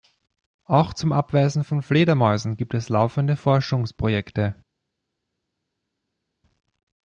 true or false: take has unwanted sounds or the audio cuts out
false